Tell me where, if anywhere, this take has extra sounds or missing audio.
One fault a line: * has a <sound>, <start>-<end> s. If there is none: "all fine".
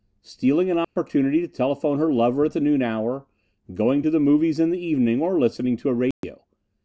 * has a dropout, 0.8-1.0 s
* has a dropout, 6.1-6.2 s